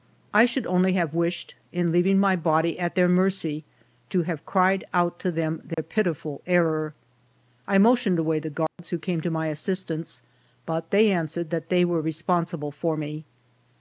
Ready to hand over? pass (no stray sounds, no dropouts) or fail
fail